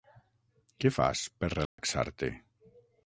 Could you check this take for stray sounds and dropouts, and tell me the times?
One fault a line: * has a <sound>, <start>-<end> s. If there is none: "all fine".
* has a dropout, 1.7-1.8 s